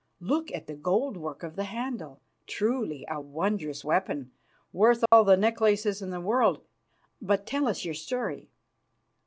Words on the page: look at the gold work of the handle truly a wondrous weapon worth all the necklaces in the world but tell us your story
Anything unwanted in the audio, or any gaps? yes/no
yes